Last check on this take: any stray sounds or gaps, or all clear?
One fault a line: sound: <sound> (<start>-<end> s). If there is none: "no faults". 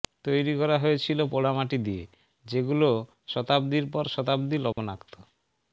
sound: dropout (4.7-4.8 s)